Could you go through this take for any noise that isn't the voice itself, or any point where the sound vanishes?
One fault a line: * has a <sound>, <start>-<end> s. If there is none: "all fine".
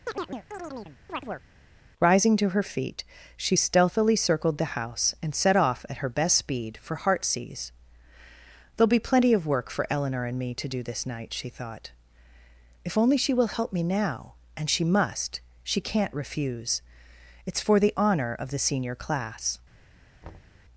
* has a chirp, 0.1-1.4 s
* has a thud, 20.2-20.6 s